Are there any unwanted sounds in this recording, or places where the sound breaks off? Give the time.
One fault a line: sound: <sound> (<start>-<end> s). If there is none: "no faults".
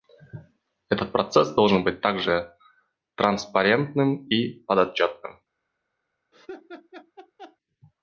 sound: laugh (6.3-7.6 s)